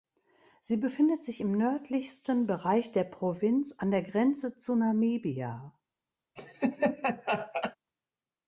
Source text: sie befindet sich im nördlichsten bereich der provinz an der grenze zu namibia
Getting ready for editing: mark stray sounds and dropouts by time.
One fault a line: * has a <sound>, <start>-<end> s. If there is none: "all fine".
* has a laugh, 6.4-7.8 s